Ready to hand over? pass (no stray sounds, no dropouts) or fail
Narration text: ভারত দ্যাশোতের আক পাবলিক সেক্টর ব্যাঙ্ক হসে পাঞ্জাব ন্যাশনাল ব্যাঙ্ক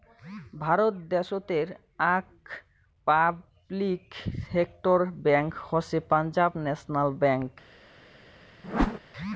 fail